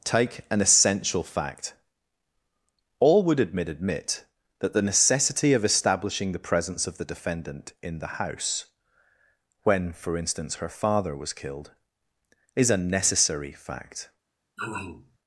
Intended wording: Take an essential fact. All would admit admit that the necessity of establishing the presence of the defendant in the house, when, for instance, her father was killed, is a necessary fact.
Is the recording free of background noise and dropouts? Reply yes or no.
no